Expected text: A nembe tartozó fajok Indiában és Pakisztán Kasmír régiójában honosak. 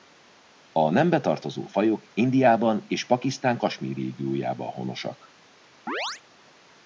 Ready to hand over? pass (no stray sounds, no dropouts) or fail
fail